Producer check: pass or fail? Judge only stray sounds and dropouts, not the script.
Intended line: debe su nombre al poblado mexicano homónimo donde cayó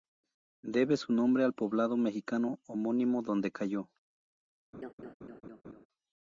fail